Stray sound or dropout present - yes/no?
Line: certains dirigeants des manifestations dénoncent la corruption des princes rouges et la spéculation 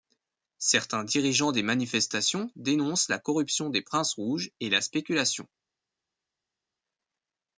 no